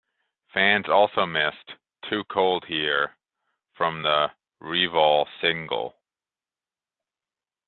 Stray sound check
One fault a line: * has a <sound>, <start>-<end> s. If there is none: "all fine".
all fine